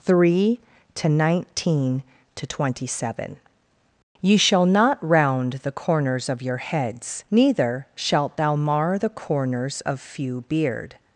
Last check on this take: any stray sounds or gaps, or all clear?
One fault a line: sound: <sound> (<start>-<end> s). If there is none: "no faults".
no faults